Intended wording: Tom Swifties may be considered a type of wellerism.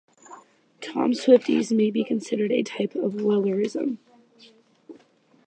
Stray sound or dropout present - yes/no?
no